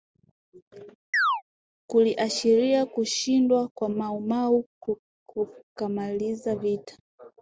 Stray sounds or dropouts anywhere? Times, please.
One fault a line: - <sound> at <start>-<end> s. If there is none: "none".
- chirp at 1.1-1.4 s